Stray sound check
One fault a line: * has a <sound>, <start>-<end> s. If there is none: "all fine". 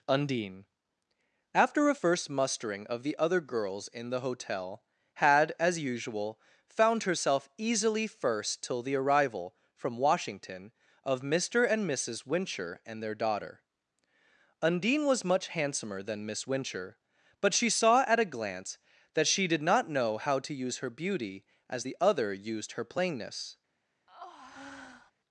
* has a breath, 24.1-25.1 s